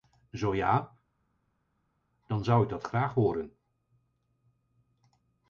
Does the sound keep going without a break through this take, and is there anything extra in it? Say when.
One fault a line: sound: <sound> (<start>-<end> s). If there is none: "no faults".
no faults